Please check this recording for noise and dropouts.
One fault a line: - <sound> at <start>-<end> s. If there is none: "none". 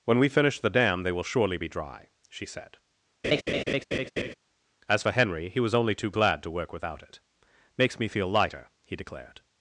- laugh at 3.2-4.3 s